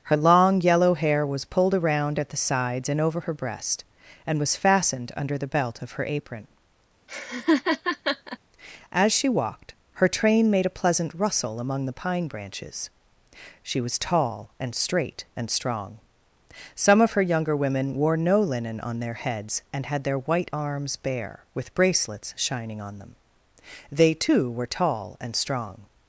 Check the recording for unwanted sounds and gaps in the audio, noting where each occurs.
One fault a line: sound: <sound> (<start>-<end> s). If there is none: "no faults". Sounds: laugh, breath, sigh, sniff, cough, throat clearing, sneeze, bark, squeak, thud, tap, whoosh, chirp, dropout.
sound: laugh (7.1-8.4 s)